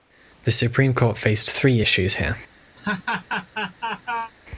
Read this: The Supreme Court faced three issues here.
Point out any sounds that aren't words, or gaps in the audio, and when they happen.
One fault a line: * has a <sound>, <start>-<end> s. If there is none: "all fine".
* has a laugh, 2.8-4.3 s